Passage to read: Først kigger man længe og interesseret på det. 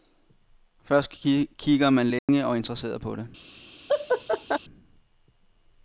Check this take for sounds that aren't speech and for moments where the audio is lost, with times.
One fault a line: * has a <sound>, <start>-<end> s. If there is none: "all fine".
* has a dropout, 2.2-2.3 s
* has a laugh, 3.9-4.6 s